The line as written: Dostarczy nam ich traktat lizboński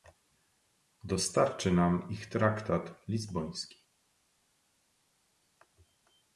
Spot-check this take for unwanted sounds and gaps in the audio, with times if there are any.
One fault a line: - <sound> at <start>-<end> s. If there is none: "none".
none